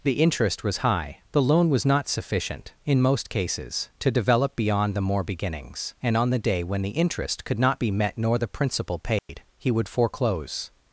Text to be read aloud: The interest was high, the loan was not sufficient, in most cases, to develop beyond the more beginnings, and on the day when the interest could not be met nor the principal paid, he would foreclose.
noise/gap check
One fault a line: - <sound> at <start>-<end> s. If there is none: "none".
- dropout at 9.2-9.3 s